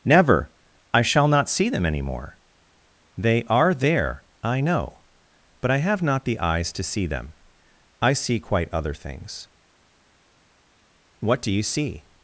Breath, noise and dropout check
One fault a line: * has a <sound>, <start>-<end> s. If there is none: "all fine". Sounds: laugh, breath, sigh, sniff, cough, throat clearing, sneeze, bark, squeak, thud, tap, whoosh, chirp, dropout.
all fine